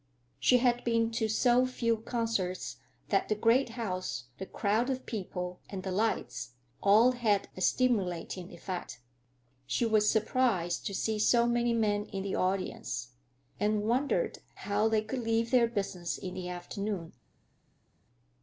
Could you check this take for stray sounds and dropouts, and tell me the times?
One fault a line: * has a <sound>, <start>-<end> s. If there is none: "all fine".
all fine